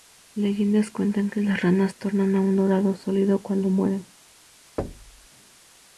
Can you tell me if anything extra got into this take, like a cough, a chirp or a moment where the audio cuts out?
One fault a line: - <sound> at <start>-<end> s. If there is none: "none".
- thud at 4.8-5.3 s